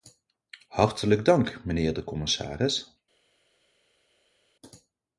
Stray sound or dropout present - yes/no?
no